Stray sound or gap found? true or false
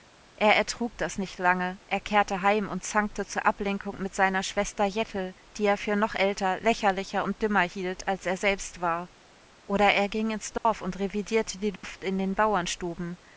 true